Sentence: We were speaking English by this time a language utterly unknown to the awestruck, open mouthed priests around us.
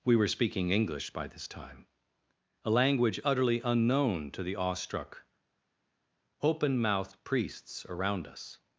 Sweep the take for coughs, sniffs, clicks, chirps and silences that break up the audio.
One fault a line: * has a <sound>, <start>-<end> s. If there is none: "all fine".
all fine